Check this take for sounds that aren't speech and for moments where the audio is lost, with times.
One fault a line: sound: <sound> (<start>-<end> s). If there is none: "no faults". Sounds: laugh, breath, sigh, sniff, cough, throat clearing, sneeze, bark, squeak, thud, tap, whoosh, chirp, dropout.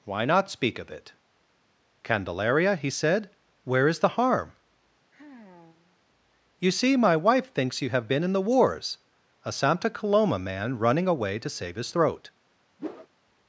sound: sigh (5.1-6.0 s)
sound: whoosh (12.8-13.1 s)